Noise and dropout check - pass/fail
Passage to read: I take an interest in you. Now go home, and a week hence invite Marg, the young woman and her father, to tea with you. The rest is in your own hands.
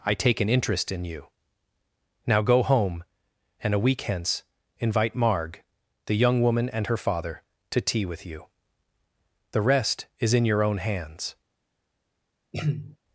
fail